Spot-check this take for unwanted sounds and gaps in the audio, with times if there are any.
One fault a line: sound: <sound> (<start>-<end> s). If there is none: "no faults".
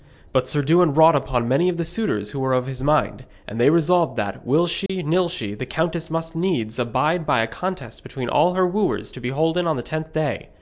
sound: dropout (4.9-4.9 s)